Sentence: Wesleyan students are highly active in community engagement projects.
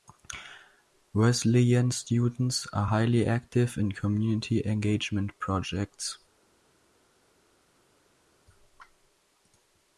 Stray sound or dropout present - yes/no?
no